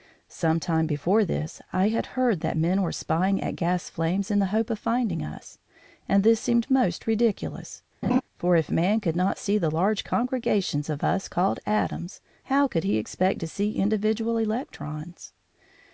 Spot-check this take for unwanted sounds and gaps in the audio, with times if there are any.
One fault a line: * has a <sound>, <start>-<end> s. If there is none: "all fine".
* has a laugh, 8.0-8.2 s